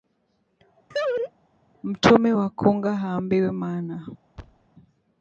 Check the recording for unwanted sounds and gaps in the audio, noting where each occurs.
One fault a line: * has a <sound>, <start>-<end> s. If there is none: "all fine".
* has a laugh, 0.9-1.3 s
* has a thud, 4.4-4.7 s